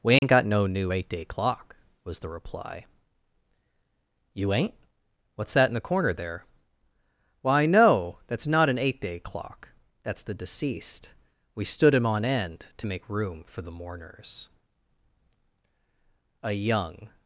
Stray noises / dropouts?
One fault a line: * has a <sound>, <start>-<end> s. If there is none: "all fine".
* has a dropout, 0.2-0.2 s